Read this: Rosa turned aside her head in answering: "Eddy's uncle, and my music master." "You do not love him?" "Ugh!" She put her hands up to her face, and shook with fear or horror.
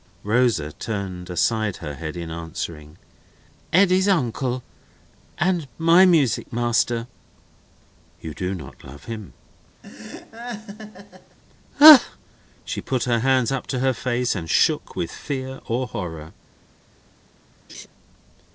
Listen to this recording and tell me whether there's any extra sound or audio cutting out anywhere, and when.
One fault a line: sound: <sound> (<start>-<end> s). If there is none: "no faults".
sound: laugh (9.8-11.4 s)
sound: laugh (17.7-17.9 s)